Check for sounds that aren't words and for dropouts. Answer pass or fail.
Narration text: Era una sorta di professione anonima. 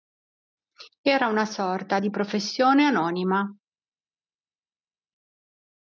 pass